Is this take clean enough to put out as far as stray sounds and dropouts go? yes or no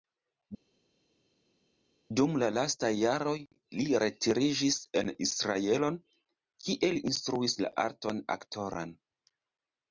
yes